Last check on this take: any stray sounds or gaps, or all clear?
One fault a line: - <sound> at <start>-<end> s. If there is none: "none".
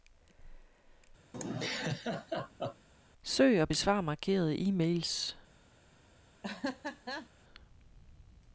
- laugh at 1.3-2.9 s
- laugh at 6.4-7.3 s